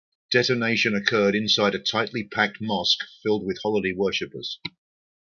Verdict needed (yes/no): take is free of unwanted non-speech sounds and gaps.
yes